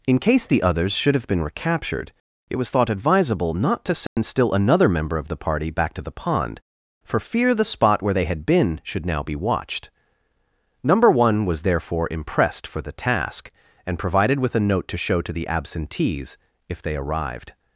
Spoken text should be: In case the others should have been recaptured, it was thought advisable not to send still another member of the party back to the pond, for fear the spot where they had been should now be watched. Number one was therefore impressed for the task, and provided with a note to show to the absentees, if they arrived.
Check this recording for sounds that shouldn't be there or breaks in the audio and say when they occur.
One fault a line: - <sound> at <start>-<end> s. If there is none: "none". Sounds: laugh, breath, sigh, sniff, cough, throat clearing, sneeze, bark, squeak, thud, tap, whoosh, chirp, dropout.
- dropout at 4.1-4.2 s